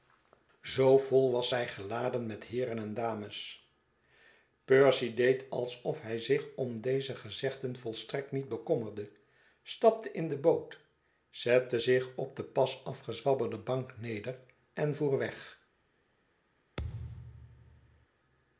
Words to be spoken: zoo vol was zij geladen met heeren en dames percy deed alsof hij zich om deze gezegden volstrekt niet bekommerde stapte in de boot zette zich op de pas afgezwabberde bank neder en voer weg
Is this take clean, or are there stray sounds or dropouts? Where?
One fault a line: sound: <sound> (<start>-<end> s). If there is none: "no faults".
sound: thud (16.8-18.1 s)